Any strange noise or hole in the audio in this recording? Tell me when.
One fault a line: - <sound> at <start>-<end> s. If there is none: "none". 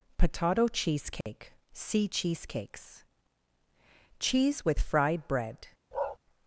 - dropout at 1.2-1.3 s
- bark at 5.9-6.2 s